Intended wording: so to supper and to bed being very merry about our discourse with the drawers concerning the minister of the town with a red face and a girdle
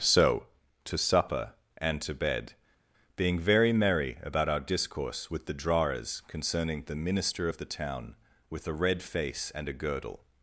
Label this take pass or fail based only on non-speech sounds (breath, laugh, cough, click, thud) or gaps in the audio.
pass